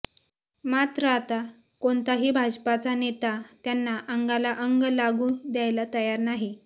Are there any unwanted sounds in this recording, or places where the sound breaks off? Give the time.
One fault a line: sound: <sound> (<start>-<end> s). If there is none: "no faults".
no faults